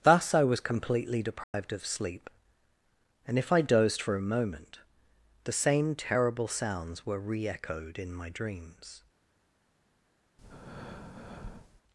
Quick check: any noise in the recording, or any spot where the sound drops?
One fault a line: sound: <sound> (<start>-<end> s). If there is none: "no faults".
sound: dropout (1.4-1.5 s)
sound: breath (10.4-11.8 s)